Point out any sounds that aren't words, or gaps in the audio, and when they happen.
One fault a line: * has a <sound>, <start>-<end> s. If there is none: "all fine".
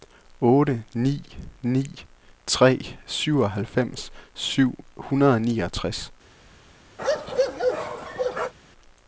* has a bark, 7.0-8.5 s